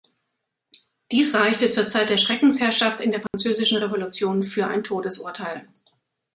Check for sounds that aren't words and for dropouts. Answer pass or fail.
fail